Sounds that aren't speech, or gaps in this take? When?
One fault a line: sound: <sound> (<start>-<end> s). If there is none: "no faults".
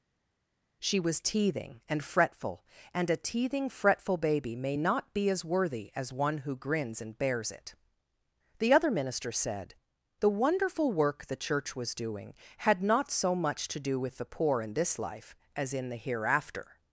no faults